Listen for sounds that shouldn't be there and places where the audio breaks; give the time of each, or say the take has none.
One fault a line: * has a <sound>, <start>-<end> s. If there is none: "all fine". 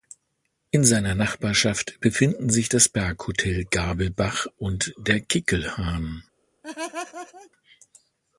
* has a laugh, 6.6-7.5 s